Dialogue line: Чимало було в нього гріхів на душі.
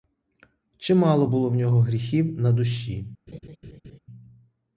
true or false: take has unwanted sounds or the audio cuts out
true